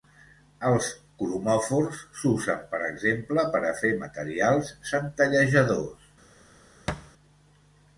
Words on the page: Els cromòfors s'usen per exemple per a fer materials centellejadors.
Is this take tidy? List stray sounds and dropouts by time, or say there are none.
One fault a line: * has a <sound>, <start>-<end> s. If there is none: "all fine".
* has a thud, 6.9-7.1 s